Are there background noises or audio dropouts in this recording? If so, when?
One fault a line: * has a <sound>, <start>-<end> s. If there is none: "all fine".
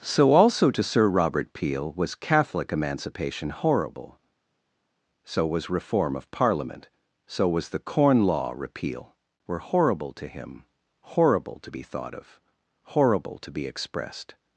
all fine